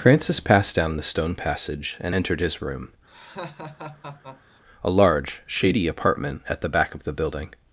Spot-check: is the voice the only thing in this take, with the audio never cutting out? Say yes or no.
no